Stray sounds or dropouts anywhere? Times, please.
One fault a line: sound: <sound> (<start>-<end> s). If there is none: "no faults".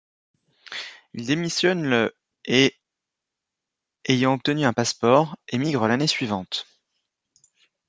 no faults